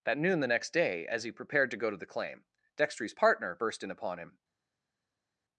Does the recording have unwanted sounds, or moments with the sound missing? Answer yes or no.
no